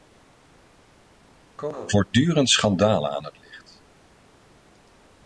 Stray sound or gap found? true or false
false